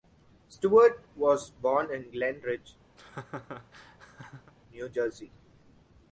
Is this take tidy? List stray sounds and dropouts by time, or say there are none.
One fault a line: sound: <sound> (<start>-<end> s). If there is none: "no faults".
sound: laugh (3.0-4.5 s)